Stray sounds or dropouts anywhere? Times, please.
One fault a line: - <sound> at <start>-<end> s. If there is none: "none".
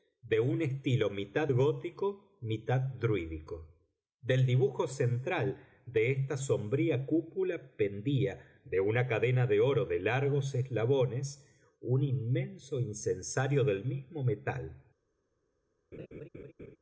- laugh at 15.9-16.8 s